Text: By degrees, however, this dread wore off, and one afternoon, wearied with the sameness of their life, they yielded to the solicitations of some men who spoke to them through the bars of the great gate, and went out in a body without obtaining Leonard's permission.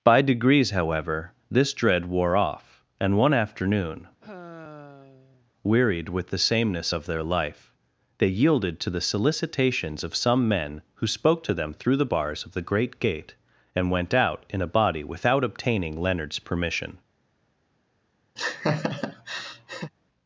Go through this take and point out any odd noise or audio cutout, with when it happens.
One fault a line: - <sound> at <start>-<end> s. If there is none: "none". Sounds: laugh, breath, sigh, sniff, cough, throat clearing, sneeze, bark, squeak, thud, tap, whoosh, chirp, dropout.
- sigh at 4.2-5.5 s
- laugh at 18.4-19.9 s